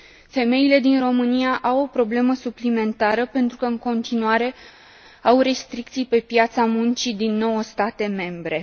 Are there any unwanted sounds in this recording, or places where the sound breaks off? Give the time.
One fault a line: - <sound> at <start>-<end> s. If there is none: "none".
none